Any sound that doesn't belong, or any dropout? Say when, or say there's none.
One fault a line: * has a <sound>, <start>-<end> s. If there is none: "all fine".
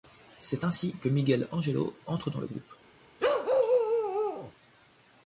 * has a bark, 3.2-4.5 s